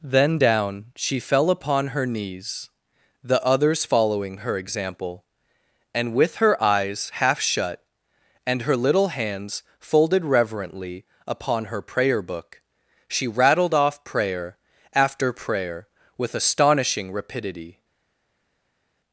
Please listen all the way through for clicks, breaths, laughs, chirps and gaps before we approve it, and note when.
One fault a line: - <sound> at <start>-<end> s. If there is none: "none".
none